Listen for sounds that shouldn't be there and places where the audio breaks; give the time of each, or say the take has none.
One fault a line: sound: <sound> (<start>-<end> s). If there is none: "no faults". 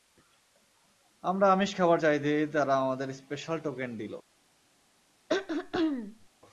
sound: throat clearing (5.3-6.3 s)